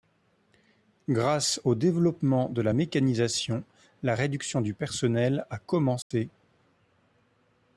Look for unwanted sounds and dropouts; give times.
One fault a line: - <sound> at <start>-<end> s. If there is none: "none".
- dropout at 6.0-6.1 s